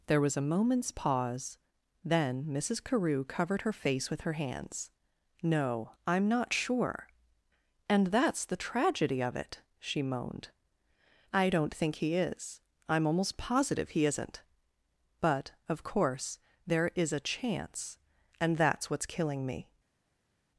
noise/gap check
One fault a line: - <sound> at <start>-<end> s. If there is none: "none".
none